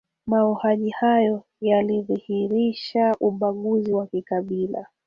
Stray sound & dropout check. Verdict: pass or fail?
pass